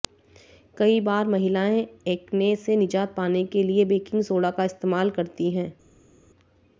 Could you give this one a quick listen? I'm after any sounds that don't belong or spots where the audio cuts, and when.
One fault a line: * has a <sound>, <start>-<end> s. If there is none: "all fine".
all fine